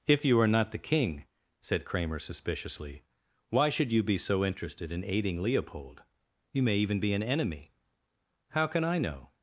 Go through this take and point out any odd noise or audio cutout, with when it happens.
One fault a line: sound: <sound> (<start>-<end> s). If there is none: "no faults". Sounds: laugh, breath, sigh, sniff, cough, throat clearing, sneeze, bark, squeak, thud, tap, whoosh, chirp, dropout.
no faults